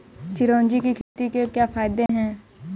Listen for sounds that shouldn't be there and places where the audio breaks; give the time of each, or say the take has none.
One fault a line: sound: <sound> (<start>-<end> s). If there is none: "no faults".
sound: dropout (1.0-1.2 s)
sound: dropout (2.1-2.1 s)